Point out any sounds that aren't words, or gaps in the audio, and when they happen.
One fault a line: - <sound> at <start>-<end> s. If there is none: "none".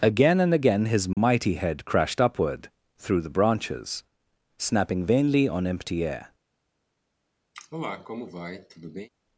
- dropout at 1.1-1.2 s
- cough at 7.5-9.1 s